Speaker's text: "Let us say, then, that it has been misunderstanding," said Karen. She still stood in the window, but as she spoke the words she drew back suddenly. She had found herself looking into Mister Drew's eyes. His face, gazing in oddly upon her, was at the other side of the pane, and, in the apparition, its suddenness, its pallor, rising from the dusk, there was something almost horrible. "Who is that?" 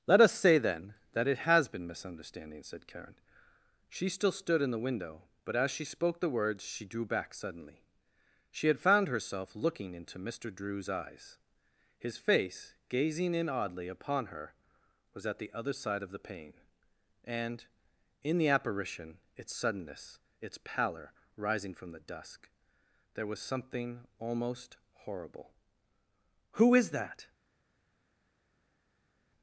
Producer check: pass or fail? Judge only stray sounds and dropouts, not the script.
pass